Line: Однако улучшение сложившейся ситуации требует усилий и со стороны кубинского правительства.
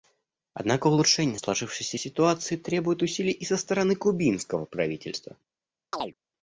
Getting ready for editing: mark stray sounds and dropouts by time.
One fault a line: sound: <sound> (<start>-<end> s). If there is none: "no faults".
sound: chirp (5.9-6.1 s)